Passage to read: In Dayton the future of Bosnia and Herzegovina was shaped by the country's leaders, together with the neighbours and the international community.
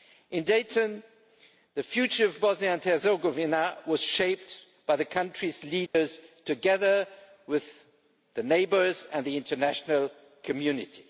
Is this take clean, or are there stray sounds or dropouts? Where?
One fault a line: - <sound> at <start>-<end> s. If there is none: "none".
- dropout at 5.9-5.9 s